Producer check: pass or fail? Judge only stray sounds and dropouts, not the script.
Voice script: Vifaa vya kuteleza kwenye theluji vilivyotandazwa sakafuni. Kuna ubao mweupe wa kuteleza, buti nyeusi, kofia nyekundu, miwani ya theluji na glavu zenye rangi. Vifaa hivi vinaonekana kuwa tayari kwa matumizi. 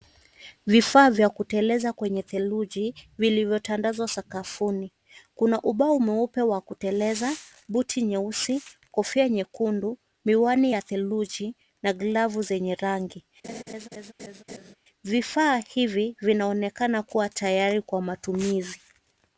fail